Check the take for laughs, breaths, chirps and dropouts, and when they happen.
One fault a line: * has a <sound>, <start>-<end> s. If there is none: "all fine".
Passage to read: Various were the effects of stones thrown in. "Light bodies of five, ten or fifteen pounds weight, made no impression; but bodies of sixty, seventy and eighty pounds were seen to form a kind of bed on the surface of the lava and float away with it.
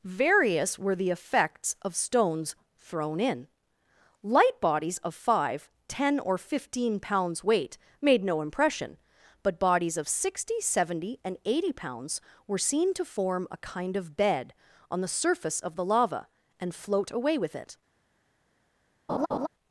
* has a laugh, 19.1-19.5 s